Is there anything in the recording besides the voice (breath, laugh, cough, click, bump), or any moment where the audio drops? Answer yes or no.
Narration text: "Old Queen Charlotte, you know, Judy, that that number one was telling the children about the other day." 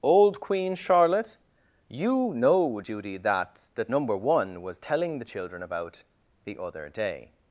no